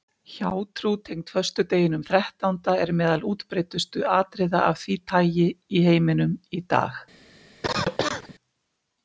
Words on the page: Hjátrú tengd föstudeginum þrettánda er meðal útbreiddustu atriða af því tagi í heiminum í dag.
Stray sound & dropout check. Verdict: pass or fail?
fail